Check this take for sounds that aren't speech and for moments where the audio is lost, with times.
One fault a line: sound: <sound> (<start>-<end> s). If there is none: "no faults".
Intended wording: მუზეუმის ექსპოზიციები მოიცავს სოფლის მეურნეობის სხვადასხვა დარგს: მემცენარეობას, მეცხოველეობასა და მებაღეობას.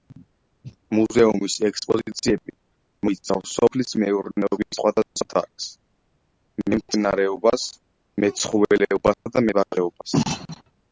sound: dropout (9.1-9.3 s)